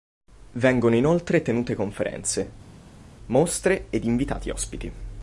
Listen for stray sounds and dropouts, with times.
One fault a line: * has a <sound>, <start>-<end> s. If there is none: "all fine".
all fine